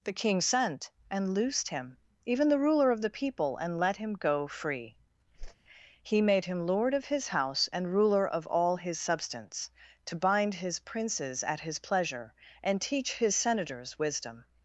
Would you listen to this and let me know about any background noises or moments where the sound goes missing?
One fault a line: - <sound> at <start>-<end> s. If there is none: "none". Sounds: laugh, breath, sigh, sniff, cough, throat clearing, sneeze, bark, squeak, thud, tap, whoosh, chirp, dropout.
- whoosh at 5.4-5.6 s